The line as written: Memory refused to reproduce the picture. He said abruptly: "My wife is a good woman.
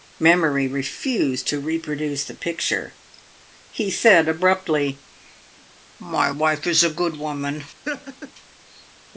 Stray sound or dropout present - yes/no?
yes